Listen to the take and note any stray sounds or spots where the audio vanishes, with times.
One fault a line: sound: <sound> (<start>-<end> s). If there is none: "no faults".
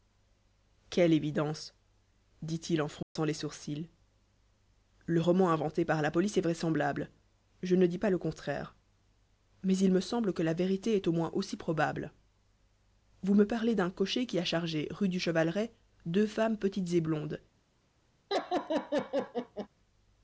sound: dropout (3.0-3.2 s)
sound: laugh (18.3-19.7 s)